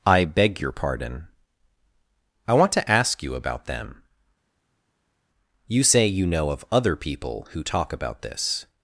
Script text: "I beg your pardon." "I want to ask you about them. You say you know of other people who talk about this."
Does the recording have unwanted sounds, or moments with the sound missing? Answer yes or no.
no